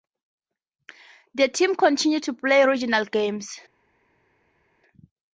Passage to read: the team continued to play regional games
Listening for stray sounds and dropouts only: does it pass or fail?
pass